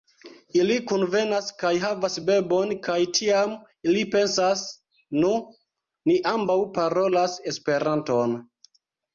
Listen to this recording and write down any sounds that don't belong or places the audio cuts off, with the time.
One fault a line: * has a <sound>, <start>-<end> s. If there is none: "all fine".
all fine